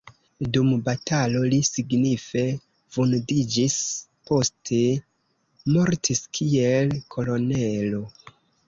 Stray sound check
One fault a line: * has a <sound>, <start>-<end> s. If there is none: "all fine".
all fine